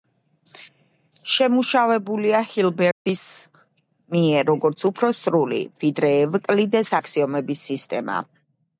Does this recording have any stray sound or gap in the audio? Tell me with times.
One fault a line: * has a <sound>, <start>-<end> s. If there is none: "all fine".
* has a dropout, 2.9-3.1 s